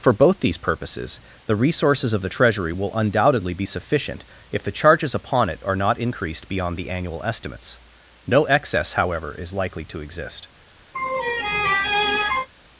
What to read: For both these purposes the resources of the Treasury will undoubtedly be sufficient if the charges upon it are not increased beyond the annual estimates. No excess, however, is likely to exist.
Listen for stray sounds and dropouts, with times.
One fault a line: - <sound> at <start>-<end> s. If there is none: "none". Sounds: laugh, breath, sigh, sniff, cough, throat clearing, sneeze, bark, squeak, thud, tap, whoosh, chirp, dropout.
- laugh at 10.9-12.5 s